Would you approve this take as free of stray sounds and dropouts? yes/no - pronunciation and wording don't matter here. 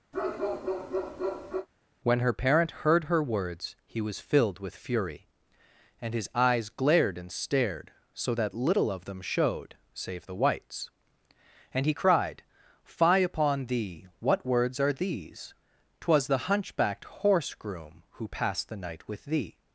no